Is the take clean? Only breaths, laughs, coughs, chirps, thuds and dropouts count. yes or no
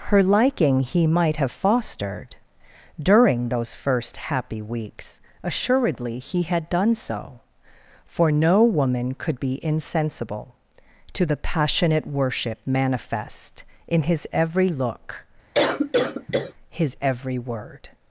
no